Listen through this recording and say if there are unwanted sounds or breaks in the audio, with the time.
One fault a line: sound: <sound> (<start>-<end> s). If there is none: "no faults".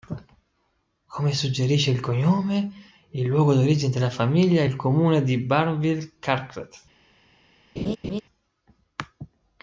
sound: laugh (7.8-8.2 s)